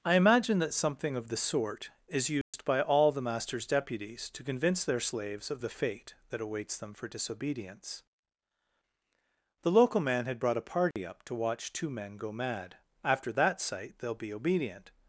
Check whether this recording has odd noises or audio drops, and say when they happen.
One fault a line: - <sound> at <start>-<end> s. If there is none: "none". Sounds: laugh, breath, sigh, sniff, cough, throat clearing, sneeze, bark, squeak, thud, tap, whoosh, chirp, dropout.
- dropout at 2.4-2.5 s
- dropout at 10.9-11.0 s